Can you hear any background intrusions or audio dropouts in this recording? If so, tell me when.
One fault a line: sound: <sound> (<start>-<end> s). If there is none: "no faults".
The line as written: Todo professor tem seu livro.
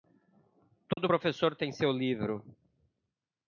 sound: dropout (0.9-1.0 s)